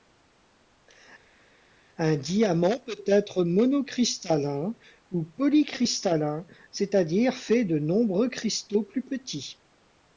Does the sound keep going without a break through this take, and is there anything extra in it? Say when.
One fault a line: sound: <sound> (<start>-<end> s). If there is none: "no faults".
no faults